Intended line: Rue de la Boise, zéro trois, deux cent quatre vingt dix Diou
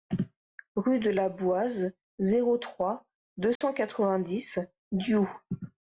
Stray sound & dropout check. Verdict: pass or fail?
fail